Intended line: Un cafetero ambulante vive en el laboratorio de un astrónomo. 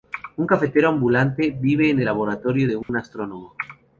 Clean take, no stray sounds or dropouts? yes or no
no